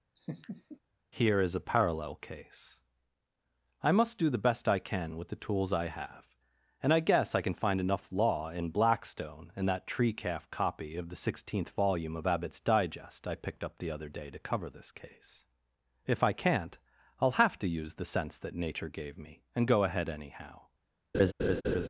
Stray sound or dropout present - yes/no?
yes